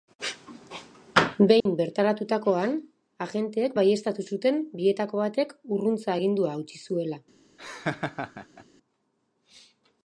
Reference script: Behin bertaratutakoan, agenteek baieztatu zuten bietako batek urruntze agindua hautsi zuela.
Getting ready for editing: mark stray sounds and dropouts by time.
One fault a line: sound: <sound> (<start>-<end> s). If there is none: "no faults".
sound: dropout (1.6-1.7 s)
sound: laugh (7.6-8.7 s)